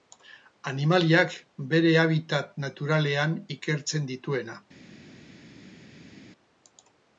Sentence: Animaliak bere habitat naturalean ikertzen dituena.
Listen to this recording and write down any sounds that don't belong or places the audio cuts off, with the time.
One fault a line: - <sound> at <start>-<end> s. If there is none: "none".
none